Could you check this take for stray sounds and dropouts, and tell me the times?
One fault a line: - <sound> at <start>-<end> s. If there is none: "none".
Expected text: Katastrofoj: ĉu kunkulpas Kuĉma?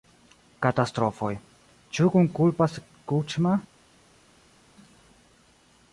none